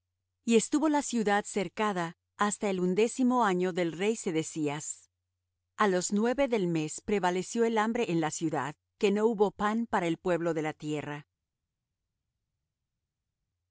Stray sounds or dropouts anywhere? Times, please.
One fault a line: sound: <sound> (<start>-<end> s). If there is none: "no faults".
no faults